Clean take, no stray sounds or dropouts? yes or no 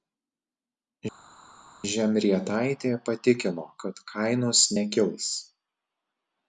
yes